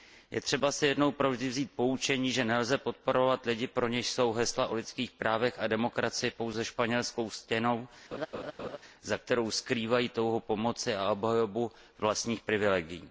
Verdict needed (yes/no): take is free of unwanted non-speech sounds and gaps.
no